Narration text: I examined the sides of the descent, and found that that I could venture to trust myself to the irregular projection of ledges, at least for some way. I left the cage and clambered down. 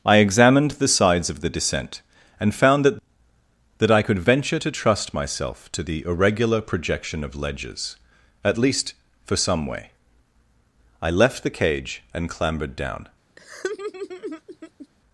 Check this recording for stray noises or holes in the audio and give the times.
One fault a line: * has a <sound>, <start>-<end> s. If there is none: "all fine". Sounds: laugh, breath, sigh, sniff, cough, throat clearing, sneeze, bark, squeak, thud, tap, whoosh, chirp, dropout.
* has a laugh, 13.4-14.9 s